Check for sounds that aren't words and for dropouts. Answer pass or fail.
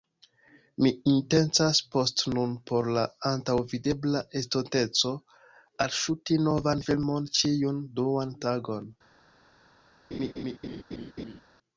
fail